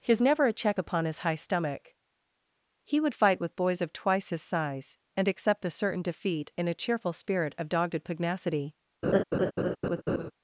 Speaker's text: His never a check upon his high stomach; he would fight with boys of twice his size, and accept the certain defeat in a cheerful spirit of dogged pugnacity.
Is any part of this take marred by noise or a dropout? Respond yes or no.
yes